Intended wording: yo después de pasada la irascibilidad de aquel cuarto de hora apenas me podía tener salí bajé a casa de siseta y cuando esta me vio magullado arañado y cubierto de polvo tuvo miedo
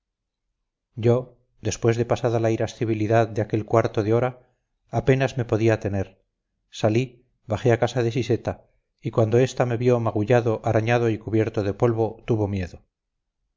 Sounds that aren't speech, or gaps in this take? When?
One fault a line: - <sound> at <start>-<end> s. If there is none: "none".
none